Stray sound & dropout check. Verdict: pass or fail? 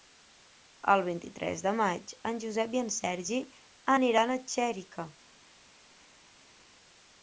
pass